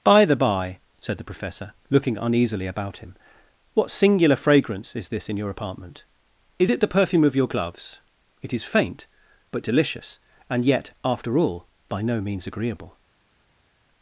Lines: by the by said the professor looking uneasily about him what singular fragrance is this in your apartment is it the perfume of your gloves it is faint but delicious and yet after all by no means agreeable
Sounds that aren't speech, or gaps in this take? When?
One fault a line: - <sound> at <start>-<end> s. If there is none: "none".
none